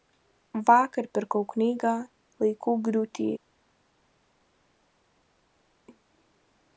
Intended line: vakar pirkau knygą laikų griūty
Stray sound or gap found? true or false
false